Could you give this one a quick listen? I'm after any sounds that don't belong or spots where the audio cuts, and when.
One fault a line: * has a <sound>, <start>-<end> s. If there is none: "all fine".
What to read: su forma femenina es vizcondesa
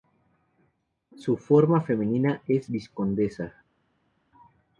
all fine